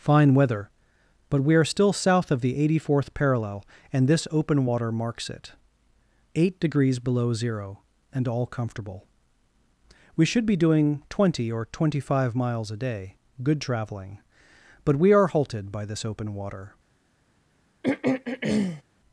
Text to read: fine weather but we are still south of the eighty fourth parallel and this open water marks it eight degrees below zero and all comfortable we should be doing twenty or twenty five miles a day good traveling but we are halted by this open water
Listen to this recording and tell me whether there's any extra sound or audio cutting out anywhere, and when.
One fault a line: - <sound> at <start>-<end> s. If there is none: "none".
- throat clearing at 17.8-18.8 s